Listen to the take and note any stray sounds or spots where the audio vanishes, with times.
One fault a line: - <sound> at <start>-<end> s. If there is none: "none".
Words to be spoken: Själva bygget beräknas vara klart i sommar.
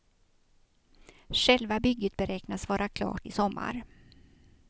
none